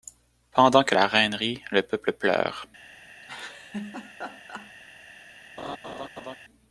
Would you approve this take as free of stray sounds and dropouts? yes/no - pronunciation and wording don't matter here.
no